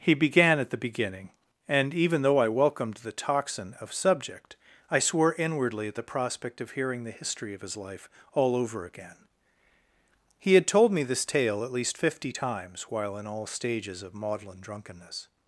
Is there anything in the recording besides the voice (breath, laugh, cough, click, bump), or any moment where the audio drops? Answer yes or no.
no